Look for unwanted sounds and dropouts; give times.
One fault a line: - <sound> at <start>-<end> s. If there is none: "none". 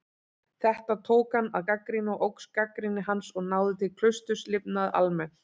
none